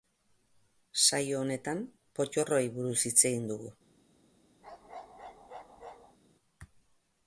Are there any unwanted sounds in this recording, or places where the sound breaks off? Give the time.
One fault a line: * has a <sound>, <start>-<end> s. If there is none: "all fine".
* has a bark, 4.6-6.2 s